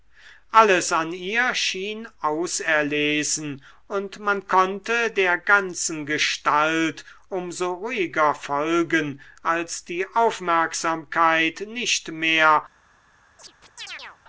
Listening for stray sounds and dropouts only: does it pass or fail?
fail